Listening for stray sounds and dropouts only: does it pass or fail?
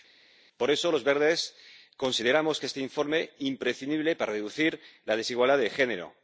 pass